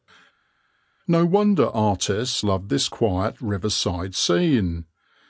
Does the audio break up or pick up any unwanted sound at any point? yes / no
no